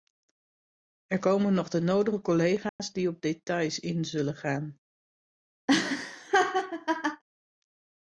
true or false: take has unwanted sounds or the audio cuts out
true